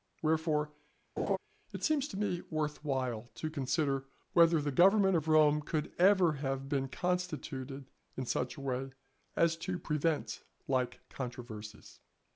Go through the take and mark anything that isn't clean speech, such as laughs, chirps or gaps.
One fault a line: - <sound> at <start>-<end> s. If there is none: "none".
- laugh at 1.2-1.4 s